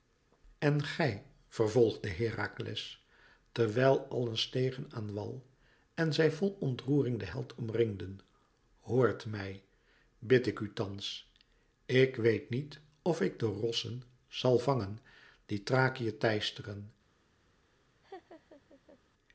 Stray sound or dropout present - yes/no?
yes